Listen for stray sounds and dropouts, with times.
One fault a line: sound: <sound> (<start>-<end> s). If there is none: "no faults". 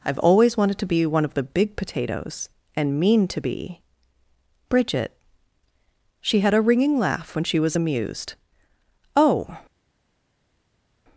no faults